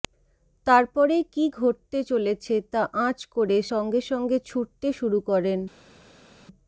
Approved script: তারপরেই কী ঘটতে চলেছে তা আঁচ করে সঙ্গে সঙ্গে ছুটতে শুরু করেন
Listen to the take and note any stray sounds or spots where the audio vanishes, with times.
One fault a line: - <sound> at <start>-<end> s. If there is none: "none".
none